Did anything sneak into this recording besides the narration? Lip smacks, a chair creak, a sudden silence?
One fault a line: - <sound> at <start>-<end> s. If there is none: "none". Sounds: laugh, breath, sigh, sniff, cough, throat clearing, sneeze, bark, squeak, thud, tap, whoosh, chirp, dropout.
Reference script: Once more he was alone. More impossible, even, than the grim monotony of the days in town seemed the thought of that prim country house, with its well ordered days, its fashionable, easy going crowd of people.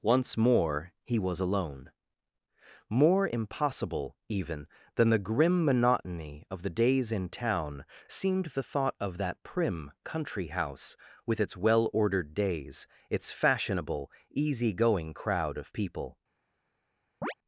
- chirp at 17.2-17.3 s